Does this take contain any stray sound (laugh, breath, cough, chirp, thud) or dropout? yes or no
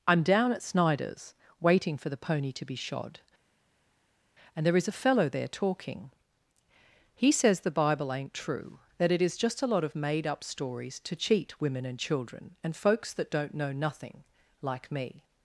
no